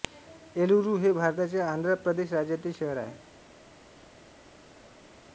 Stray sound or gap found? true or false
false